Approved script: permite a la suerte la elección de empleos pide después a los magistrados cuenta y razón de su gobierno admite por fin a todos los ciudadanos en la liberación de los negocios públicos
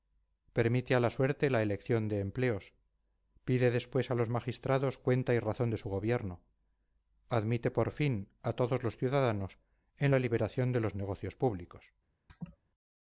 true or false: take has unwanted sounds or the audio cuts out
true